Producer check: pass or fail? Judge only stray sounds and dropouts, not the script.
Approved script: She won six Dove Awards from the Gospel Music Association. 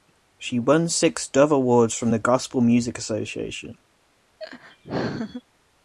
fail